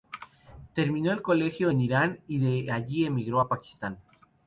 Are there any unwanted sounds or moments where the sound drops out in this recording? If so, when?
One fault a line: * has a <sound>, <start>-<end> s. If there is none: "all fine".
all fine